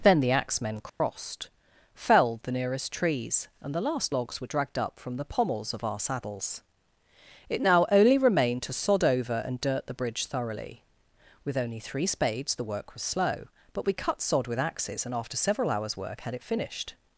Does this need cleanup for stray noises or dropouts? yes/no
yes